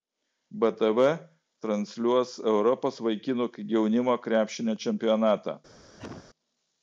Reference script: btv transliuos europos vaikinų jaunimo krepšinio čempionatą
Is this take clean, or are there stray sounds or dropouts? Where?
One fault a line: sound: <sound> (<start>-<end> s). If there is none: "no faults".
sound: cough (6.0-6.3 s)